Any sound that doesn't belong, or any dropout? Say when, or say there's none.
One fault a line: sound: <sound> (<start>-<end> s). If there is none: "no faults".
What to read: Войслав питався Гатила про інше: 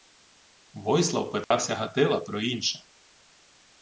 sound: dropout (1.4-1.5 s)